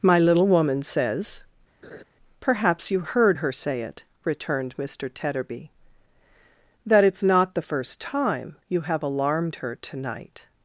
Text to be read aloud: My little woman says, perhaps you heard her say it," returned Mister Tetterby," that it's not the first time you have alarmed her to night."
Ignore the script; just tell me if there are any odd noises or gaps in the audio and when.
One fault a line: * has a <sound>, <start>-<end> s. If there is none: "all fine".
* has a laugh, 1.8-2.0 s